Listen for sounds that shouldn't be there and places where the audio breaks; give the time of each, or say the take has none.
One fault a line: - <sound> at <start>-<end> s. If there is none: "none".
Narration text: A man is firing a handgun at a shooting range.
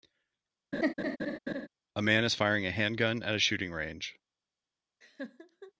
- laugh at 0.7-1.7 s
- laugh at 5.0-5.7 s